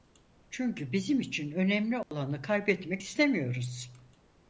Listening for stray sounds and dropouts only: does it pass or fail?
fail